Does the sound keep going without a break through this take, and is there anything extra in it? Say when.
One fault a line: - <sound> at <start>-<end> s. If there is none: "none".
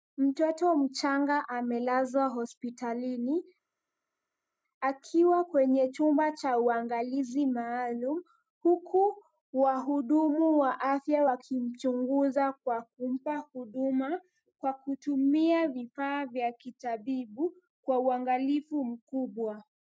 none